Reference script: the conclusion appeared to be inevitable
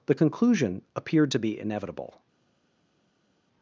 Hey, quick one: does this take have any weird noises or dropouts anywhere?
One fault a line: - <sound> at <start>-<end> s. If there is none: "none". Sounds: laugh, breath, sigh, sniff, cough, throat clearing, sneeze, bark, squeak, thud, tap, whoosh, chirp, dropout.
none